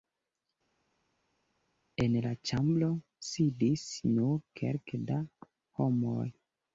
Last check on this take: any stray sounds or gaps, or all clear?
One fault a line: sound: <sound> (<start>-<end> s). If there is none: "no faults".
no faults